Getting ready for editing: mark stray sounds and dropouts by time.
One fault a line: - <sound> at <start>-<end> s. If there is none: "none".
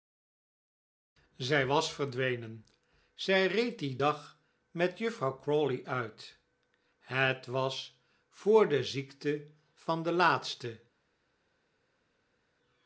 none